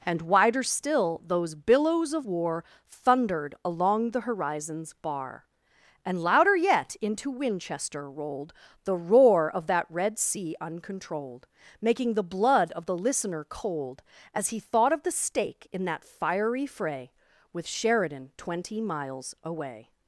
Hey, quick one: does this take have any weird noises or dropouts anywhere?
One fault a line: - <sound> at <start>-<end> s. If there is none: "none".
none